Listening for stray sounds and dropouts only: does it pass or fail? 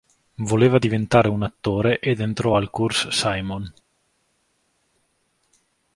pass